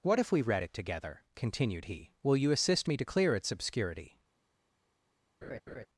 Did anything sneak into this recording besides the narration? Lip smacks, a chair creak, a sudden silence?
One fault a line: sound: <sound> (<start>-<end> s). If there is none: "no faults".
sound: laugh (5.4-5.9 s)